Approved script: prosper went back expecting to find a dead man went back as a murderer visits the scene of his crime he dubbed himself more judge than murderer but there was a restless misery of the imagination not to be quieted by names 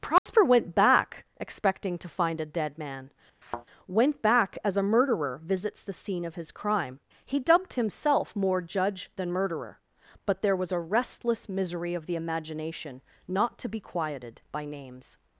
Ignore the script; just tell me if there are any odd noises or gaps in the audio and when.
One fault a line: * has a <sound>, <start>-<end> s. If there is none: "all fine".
* has a dropout, 0.2-0.3 s
* has a thud, 3.4-3.7 s